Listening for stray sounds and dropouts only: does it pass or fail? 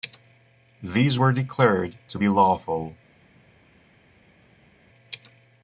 pass